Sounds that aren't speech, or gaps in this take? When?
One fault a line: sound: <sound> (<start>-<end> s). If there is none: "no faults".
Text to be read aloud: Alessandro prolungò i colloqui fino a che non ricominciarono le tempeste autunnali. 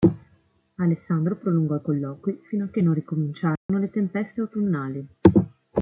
sound: dropout (3.6-3.7 s)